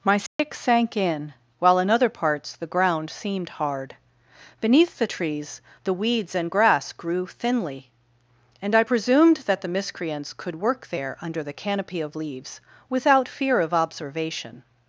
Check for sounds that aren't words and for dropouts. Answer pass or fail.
fail